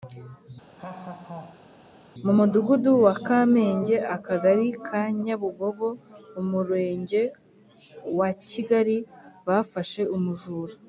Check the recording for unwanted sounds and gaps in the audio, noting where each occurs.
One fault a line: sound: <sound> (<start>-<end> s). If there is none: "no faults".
sound: laugh (0.8-1.7 s)